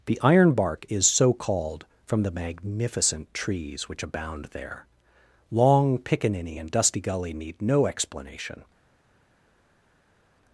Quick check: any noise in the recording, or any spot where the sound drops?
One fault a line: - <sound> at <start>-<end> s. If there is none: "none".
none